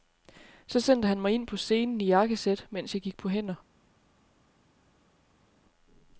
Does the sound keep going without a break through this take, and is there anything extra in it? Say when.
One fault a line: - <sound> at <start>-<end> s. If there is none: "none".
none